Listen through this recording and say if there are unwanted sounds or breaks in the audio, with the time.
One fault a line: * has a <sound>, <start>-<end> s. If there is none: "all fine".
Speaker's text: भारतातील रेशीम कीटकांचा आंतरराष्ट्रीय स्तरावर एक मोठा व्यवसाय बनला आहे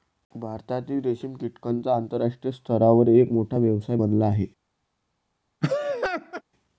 * has a laugh, 5.6-6.4 s